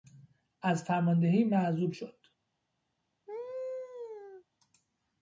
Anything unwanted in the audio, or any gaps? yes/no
yes